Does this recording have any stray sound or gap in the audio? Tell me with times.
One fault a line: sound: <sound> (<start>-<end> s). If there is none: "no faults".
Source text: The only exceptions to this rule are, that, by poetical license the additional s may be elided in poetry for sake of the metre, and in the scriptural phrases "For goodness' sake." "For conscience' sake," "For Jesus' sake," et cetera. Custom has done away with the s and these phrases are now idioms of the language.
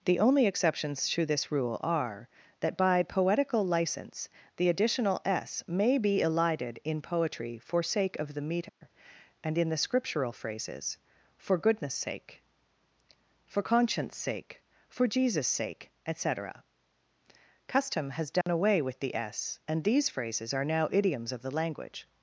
sound: dropout (8.7-8.8 s)
sound: dropout (18.4-18.5 s)